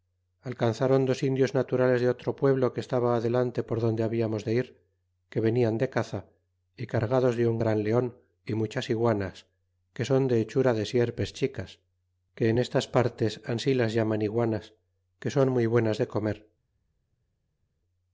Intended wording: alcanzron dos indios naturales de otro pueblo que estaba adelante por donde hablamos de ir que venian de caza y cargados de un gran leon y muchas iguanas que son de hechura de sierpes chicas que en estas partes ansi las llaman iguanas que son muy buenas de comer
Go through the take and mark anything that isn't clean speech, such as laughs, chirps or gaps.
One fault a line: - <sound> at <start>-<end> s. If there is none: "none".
none